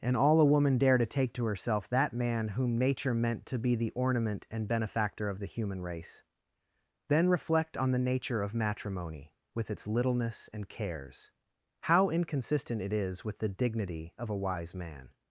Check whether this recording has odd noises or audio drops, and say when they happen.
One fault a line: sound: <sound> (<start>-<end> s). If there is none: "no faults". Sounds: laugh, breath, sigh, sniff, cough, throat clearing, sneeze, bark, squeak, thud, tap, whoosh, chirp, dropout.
no faults